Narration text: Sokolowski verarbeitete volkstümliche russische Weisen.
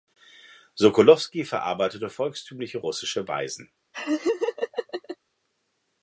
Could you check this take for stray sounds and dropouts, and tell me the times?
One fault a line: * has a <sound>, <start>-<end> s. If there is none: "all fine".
* has a laugh, 3.9-5.2 s